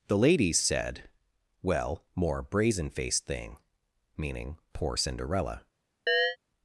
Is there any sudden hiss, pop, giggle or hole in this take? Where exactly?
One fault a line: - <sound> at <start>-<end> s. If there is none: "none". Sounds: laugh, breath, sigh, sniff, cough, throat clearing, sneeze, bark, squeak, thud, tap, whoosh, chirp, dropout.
- chirp at 6.1-6.4 s